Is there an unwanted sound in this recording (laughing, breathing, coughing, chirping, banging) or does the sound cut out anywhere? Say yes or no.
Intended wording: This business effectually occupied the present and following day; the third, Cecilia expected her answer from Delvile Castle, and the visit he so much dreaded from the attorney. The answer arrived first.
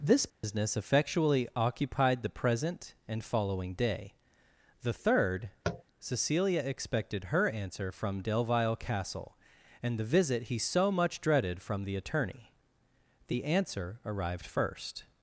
yes